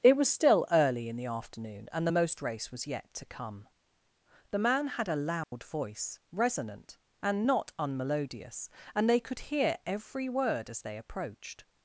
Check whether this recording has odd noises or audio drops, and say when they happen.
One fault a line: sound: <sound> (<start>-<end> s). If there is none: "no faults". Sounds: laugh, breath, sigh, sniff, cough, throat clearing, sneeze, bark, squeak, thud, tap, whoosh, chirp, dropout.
sound: dropout (5.4-5.5 s)